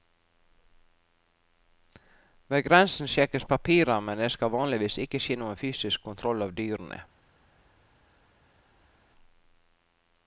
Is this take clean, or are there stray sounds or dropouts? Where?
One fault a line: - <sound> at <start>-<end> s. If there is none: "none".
none